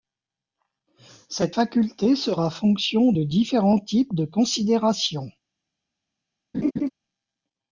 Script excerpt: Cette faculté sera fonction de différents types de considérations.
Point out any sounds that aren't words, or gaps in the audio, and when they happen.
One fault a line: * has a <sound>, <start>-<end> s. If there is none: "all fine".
* has a laugh, 6.5-6.9 s